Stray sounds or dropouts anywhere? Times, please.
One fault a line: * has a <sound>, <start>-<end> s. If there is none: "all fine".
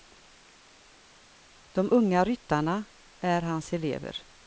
all fine